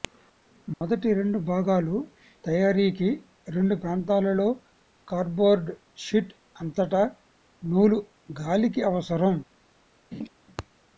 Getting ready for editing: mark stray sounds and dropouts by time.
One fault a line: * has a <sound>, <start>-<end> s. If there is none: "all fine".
* has a dropout, 0.7-0.8 s
* has a laugh, 10.1-10.3 s